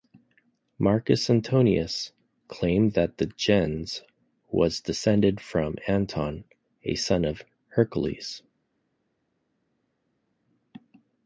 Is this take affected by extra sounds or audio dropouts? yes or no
no